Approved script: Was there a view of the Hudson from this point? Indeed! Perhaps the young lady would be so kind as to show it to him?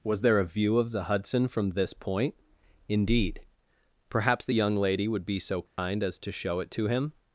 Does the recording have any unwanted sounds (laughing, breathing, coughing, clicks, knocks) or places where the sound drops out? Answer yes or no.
yes